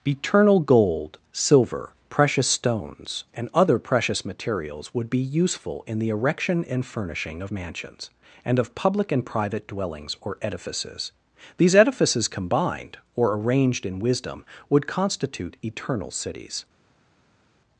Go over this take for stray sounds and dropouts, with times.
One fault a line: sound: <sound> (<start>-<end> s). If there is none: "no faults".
no faults